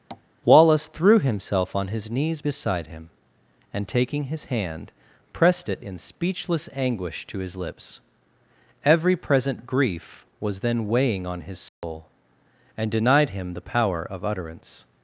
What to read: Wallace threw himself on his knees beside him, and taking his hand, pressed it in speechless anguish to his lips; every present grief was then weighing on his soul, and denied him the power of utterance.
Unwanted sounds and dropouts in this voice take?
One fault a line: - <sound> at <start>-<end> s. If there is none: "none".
- tap at 0.1-0.3 s
- dropout at 11.7-11.8 s